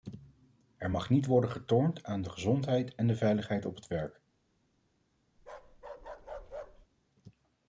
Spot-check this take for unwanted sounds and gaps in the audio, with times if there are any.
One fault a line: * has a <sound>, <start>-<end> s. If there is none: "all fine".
* has a bark, 5.4-6.9 s